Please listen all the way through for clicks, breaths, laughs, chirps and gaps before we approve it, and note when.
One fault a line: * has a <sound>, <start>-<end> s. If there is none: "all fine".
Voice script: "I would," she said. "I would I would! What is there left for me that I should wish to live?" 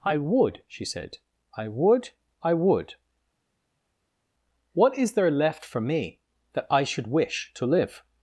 all fine